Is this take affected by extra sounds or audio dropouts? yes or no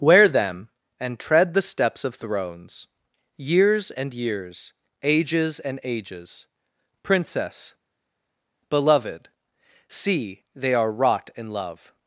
no